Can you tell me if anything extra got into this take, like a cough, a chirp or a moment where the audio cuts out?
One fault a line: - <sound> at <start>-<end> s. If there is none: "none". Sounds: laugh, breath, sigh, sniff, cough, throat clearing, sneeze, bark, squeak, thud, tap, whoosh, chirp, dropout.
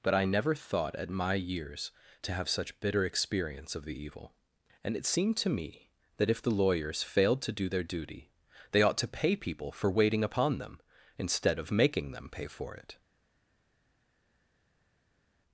none